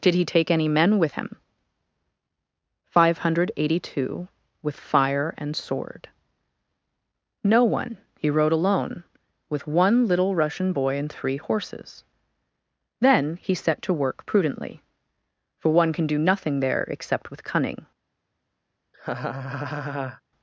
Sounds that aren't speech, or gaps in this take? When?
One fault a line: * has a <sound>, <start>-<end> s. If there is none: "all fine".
* has a laugh, 18.9-20.2 s